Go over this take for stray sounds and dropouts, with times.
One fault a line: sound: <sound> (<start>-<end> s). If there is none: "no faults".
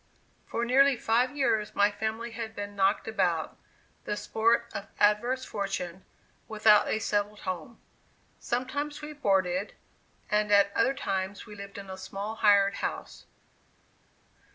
no faults